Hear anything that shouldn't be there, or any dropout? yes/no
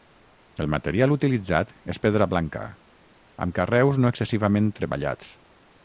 no